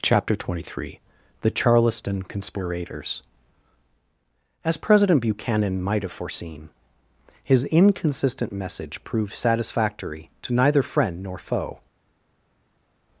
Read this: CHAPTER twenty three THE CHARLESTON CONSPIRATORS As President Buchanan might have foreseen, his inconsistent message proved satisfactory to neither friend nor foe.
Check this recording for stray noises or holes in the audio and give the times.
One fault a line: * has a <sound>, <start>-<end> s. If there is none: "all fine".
all fine